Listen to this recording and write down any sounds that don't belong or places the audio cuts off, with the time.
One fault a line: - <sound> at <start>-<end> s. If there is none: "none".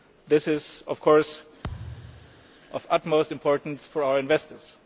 - thud at 1.6-2.5 s